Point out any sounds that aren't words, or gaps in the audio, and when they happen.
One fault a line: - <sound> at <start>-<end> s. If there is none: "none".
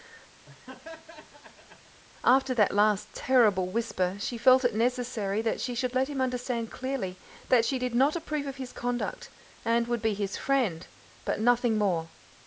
- laugh at 0.5-2.0 s